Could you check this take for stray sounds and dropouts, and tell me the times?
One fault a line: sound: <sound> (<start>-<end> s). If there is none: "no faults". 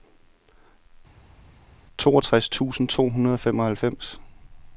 no faults